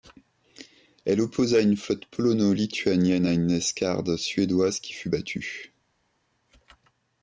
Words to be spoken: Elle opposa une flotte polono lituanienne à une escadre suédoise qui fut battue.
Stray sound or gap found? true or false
false